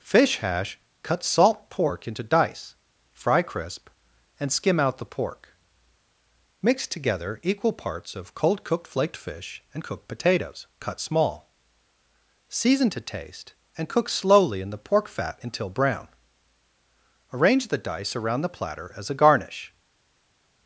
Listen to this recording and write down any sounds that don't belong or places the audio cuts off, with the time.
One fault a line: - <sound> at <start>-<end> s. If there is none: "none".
none